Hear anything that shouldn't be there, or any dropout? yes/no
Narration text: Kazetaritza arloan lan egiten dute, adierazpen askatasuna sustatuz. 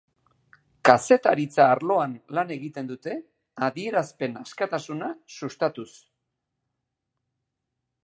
no